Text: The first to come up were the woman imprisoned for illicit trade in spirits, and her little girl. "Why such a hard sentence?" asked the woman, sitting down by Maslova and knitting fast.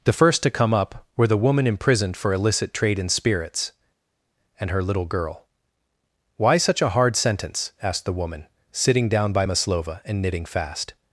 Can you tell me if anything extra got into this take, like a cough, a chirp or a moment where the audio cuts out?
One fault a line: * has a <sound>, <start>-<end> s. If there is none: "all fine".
all fine